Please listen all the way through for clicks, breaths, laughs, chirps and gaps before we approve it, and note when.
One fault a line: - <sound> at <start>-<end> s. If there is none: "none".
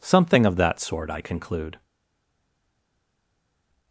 none